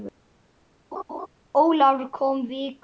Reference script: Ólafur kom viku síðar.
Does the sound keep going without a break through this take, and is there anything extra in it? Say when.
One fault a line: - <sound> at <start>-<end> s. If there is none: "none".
- laugh at 0.9-1.3 s